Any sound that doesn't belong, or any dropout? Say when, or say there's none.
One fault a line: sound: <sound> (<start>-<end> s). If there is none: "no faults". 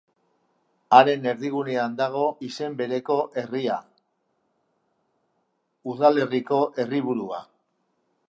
no faults